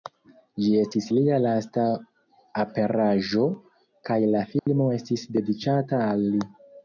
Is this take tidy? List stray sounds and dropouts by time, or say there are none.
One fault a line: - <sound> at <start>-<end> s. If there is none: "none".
- dropout at 4.6-4.7 s